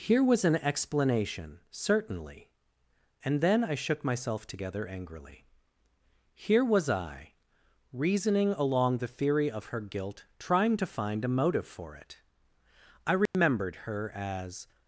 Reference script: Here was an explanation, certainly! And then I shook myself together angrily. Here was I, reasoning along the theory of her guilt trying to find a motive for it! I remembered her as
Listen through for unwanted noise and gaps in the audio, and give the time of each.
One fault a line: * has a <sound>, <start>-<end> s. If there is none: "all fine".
* has a dropout, 13.3-13.3 s